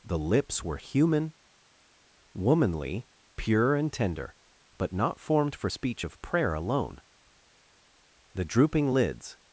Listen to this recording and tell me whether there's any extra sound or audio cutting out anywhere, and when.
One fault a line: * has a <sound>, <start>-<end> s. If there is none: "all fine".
all fine